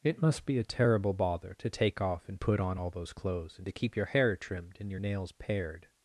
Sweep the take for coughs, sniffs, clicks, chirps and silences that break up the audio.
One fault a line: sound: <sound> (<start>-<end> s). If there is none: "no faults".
no faults